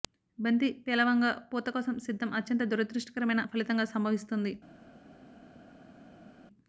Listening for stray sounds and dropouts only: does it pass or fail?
pass